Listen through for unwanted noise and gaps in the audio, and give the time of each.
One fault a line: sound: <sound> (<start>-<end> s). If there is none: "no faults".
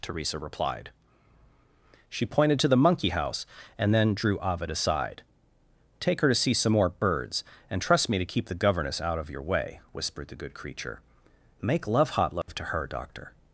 sound: dropout (12.4-12.5 s)